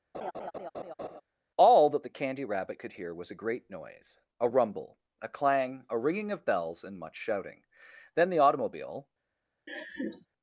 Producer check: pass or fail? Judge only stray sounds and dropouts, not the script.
fail